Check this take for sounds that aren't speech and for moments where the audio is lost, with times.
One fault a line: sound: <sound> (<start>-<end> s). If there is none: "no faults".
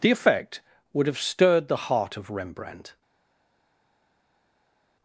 no faults